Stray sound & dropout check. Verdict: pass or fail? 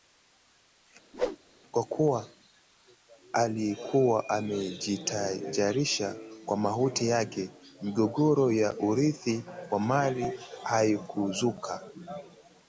fail